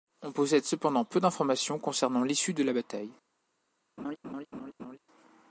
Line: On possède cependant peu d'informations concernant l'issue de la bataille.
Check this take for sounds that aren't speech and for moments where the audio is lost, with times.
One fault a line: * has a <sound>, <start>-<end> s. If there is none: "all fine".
* has a laugh, 4.0-5.0 s